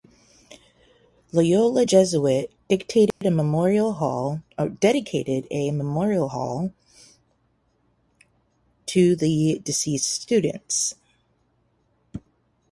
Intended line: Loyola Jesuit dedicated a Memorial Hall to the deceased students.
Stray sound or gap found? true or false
true